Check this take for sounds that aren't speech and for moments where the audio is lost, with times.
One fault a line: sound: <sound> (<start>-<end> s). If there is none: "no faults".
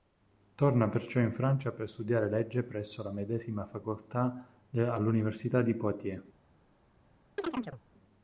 sound: chirp (7.4-7.8 s)